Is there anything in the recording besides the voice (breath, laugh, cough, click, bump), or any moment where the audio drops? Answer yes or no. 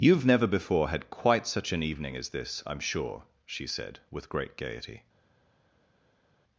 no